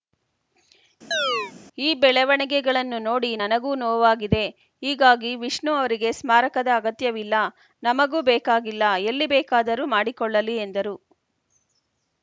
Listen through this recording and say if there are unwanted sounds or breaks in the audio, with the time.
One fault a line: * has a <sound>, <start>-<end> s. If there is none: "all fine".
* has a chirp, 1.1-1.5 s